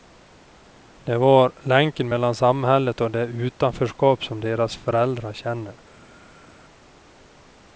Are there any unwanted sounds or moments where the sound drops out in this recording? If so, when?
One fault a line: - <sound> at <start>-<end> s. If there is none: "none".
none